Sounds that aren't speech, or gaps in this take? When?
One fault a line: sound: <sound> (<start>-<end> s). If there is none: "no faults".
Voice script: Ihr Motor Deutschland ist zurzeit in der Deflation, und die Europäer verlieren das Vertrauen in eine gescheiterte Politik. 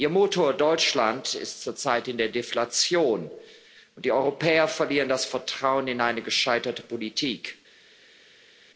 no faults